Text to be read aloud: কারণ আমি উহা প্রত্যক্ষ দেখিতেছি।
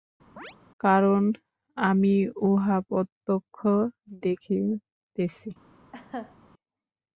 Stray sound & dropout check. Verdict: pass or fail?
fail